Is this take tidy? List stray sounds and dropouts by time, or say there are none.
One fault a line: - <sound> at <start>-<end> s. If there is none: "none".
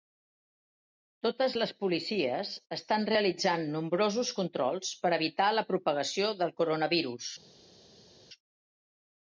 none